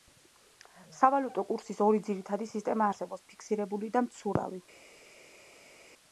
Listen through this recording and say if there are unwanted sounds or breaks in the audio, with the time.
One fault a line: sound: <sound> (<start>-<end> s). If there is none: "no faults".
no faults